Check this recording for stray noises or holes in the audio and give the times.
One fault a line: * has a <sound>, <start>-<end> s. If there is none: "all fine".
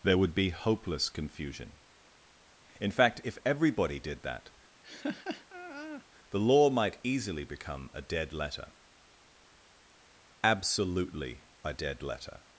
* has a laugh, 4.8-6.1 s